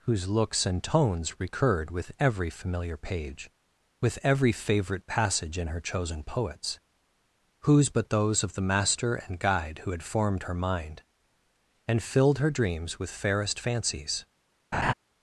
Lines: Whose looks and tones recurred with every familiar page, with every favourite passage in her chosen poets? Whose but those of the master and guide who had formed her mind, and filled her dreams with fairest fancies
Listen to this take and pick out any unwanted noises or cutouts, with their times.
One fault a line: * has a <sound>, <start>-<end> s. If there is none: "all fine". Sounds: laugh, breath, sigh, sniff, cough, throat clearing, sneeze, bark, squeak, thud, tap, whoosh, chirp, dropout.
* has a laugh, 14.7-14.9 s